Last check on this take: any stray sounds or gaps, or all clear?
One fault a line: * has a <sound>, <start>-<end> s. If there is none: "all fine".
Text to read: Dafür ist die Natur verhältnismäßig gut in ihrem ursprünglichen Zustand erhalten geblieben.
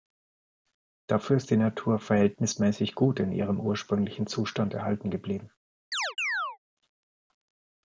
* has a chirp, 5.9-6.6 s